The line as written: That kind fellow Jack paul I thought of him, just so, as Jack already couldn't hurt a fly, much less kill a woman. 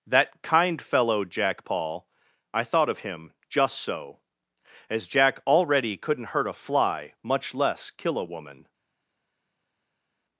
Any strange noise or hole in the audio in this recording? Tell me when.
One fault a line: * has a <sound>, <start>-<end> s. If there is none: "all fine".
all fine